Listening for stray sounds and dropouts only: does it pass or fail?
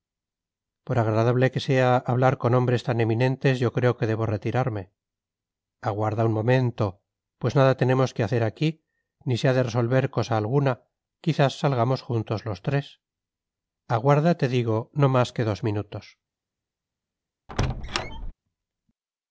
fail